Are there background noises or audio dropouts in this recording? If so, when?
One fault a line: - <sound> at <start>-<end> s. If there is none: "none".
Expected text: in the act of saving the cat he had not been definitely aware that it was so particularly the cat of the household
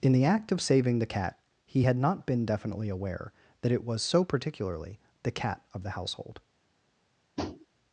- tap at 7.4-7.7 s